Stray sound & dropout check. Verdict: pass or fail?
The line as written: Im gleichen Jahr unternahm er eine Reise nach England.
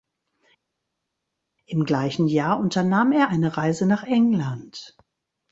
pass